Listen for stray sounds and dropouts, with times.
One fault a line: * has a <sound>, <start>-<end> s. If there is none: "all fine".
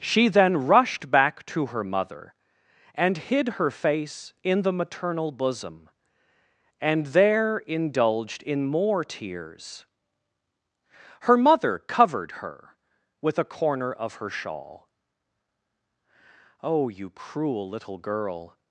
all fine